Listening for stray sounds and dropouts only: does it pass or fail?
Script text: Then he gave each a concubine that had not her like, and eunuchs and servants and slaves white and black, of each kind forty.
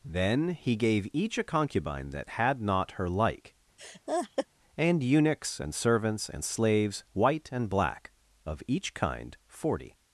fail